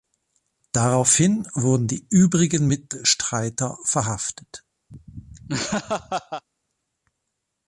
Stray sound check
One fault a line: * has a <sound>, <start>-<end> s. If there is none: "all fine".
* has a laugh, 4.9-6.4 s